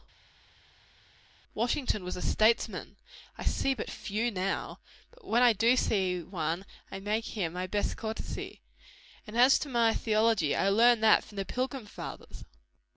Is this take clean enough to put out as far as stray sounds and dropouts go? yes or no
yes